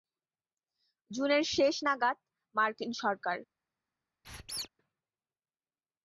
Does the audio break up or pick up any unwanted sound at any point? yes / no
yes